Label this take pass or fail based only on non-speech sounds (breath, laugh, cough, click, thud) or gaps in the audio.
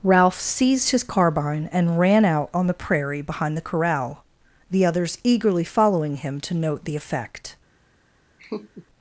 fail